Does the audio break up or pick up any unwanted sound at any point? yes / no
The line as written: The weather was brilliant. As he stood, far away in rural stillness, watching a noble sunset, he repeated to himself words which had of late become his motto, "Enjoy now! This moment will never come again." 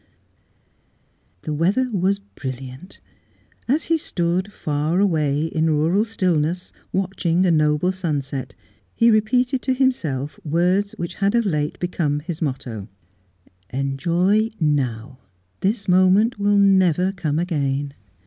no